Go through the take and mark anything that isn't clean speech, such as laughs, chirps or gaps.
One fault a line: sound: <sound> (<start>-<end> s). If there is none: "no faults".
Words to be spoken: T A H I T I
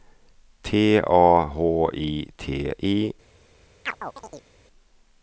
sound: chirp (3.9-4.5 s)